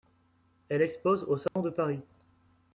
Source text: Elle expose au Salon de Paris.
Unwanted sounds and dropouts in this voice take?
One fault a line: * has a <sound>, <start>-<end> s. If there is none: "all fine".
* has a dropout, 1.5-1.6 s